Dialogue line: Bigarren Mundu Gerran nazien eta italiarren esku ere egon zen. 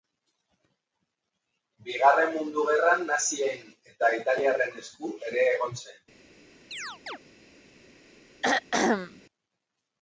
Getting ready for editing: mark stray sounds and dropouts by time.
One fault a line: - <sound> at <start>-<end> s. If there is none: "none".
- chirp at 6.7-7.2 s
- throat clearing at 8.4-9.2 s